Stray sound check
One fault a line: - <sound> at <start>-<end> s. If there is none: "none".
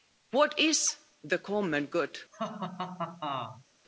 - laugh at 2.3-3.6 s